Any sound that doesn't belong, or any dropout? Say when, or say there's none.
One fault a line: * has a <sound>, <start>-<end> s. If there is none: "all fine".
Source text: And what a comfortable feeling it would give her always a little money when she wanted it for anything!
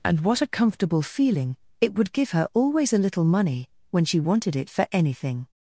all fine